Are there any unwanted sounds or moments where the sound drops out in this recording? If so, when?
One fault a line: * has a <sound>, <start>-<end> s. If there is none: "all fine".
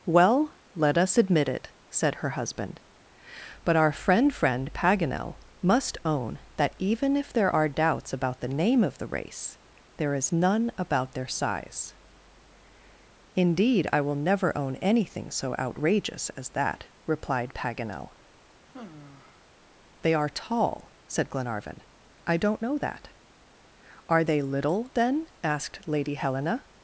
* has a sigh, 18.7-19.4 s